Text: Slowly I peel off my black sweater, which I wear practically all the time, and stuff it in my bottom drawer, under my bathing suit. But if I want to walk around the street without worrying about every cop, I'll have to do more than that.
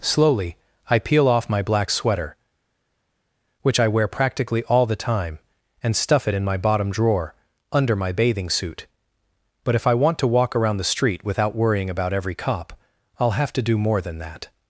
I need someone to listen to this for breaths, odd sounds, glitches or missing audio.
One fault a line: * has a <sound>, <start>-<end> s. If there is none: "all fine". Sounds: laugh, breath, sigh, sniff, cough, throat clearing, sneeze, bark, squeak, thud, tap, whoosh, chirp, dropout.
all fine